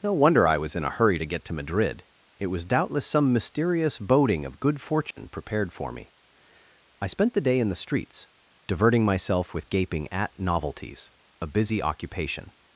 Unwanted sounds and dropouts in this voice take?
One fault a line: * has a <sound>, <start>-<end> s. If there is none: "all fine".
* has a dropout, 5.1-5.2 s